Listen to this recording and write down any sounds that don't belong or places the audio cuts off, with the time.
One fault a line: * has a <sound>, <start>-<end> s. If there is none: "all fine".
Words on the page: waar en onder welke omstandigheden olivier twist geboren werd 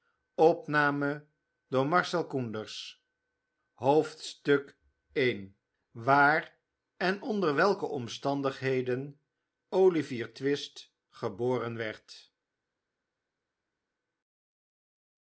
all fine